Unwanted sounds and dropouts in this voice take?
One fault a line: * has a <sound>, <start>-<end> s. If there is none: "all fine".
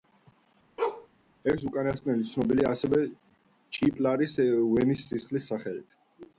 * has a bark, 0.8-1.1 s